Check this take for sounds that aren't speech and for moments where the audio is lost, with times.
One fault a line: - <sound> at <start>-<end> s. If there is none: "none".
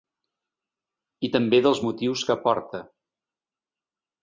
none